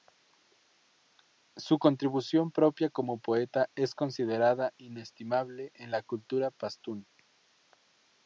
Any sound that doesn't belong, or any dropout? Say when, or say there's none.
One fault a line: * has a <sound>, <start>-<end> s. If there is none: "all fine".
all fine